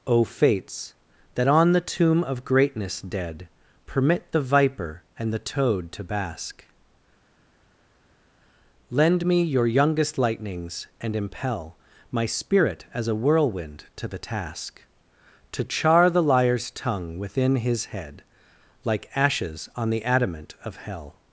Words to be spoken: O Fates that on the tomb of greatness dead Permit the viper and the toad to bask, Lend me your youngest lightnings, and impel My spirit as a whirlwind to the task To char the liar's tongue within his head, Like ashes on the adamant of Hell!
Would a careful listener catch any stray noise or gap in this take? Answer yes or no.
no